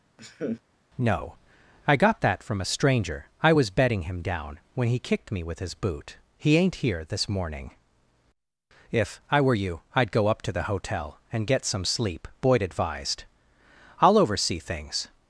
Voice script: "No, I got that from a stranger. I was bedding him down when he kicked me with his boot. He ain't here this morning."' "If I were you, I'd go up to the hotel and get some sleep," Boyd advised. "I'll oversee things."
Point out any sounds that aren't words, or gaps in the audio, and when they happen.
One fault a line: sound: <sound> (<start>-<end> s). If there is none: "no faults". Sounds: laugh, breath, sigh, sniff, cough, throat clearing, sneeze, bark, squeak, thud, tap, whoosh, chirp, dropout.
sound: laugh (0.2-0.6 s)